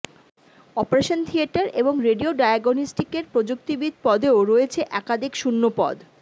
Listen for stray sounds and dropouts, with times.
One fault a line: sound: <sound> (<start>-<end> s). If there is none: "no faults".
no faults